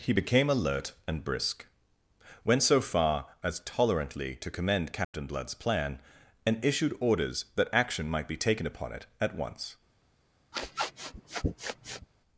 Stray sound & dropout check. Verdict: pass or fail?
fail